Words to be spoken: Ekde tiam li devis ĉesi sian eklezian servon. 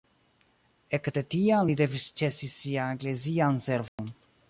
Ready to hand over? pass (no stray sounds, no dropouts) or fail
fail